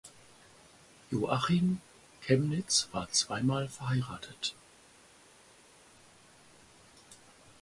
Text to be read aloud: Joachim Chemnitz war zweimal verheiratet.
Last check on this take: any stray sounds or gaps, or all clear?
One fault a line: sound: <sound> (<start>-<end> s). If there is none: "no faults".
no faults